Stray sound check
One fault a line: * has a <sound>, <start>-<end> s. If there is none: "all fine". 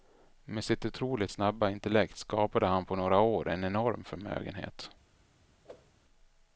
* has a whoosh, 5.6-5.9 s